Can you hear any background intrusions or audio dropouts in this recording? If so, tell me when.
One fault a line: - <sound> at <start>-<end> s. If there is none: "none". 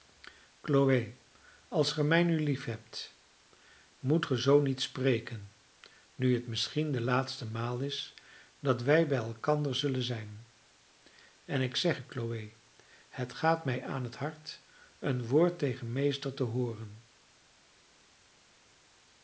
none